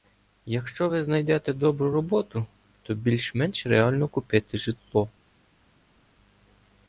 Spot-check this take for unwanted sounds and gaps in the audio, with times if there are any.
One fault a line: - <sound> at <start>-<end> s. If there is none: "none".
none